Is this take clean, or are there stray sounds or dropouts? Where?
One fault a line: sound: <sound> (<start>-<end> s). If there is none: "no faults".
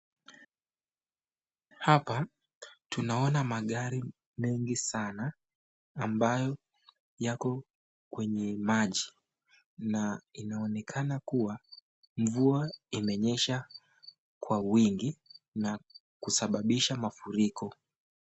no faults